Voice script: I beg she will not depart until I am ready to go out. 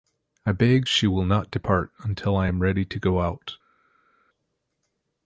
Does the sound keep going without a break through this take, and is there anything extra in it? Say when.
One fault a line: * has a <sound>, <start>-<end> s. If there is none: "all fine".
all fine